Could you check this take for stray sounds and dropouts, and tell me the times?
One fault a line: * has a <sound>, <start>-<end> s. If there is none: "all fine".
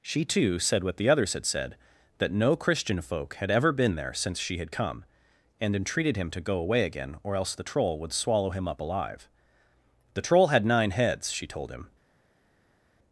all fine